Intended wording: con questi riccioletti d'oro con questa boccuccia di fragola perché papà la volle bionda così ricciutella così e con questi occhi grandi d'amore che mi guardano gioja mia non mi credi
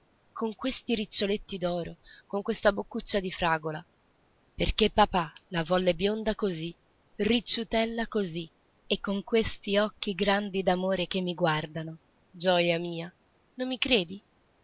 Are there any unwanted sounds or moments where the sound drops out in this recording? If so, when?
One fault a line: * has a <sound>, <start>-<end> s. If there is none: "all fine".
all fine